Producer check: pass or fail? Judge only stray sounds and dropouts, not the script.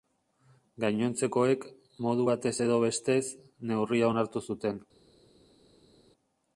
pass